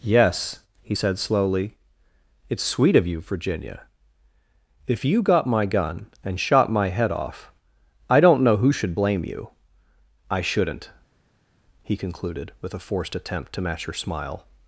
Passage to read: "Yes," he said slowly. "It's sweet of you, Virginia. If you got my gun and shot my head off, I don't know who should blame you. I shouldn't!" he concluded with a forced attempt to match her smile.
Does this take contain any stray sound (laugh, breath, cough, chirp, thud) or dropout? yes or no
no